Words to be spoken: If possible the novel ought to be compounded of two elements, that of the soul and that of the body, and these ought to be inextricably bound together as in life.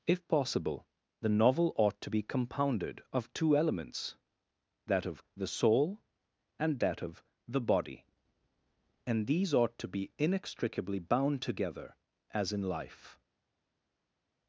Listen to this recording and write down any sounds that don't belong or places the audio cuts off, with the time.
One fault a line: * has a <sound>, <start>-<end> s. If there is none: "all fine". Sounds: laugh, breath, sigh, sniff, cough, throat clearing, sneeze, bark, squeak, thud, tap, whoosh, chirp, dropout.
all fine